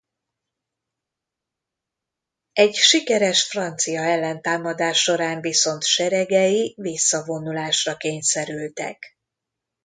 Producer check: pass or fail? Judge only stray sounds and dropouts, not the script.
pass